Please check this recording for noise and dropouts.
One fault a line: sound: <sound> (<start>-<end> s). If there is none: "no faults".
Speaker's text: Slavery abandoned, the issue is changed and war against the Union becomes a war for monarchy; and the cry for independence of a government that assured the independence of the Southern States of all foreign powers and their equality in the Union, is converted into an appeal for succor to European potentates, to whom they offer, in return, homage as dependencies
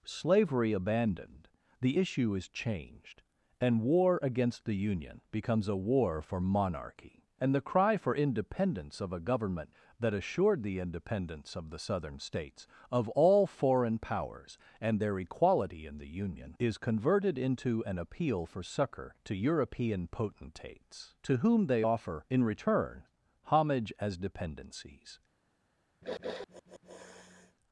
sound: sniff (26.0-27.6 s)